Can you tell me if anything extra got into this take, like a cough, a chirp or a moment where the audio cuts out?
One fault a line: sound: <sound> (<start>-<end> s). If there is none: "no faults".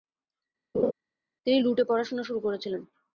sound: laugh (0.7-0.9 s)